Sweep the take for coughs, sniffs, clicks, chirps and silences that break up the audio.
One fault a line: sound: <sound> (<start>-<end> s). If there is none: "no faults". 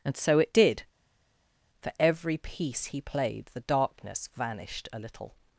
no faults